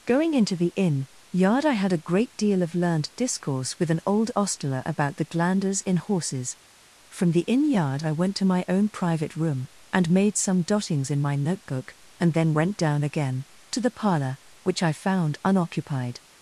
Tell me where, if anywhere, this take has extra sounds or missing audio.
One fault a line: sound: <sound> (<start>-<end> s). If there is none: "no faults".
no faults